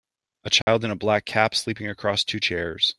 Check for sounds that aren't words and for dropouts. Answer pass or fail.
fail